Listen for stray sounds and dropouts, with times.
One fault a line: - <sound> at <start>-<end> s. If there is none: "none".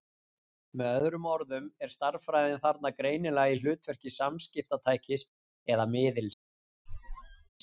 - squeak at 6.9-7.5 s